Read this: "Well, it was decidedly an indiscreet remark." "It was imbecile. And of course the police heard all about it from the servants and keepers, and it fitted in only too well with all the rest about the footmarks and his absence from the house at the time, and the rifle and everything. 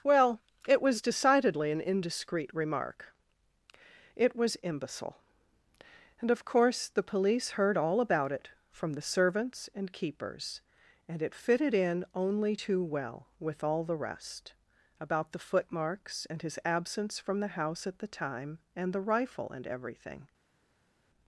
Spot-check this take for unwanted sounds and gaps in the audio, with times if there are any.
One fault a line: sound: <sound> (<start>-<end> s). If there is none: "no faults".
no faults